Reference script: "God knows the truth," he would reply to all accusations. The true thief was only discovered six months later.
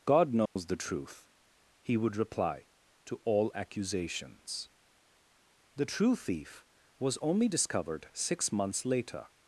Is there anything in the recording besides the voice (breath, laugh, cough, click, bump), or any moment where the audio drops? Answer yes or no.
yes